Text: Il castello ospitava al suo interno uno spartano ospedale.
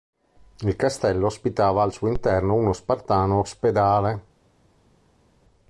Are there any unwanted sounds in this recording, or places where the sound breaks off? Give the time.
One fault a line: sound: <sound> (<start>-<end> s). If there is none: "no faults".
no faults